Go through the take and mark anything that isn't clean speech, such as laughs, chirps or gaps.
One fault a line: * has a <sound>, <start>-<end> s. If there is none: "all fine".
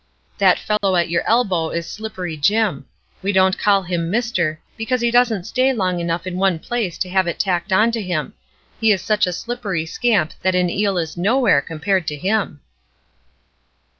* has a dropout, 0.8-0.8 s